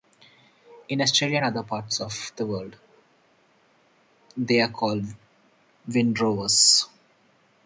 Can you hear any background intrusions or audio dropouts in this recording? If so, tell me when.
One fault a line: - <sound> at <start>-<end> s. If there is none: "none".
none